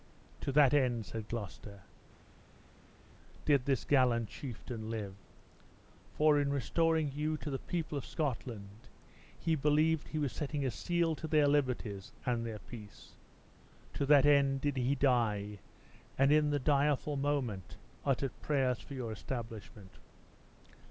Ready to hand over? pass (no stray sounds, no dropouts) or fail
pass